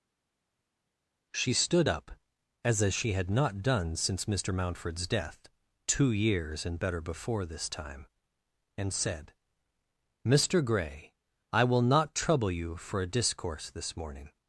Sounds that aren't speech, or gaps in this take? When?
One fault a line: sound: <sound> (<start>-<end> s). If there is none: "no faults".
no faults